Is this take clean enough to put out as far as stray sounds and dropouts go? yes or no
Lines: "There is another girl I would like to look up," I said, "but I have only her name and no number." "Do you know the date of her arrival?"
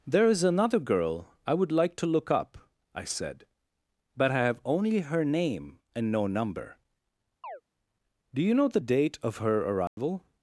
no